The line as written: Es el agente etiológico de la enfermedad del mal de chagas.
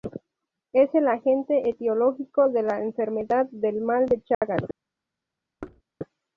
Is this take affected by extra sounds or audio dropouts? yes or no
yes